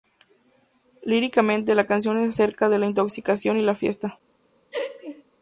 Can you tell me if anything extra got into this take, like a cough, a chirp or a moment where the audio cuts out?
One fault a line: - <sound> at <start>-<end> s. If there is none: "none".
- laugh at 4.7-5.2 s